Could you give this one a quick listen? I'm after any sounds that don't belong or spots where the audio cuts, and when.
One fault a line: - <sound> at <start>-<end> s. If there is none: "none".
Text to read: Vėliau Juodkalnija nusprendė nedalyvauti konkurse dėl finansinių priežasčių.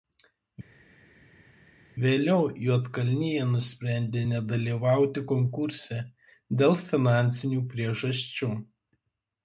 none